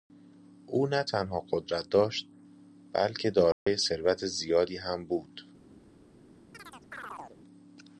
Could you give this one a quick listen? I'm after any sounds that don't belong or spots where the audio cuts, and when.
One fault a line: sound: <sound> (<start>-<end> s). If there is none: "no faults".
sound: dropout (3.5-3.7 s)
sound: chirp (6.5-7.4 s)